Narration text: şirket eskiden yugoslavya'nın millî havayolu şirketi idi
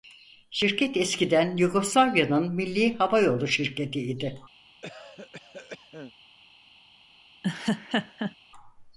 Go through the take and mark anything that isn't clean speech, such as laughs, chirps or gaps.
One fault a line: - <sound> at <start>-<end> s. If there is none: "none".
- cough at 4.8-6.1 s
- laugh at 7.4-8.3 s